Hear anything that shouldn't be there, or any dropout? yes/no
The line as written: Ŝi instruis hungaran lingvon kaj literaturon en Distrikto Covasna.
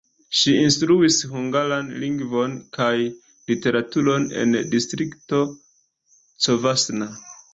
no